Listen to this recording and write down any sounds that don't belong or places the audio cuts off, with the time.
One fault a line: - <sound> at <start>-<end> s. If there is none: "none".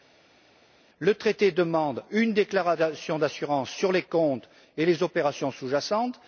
none